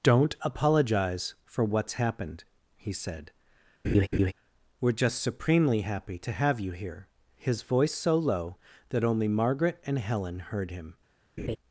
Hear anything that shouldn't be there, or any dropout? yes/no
yes